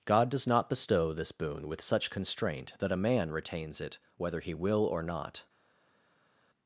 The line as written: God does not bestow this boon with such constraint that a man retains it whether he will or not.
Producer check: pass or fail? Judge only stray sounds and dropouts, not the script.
pass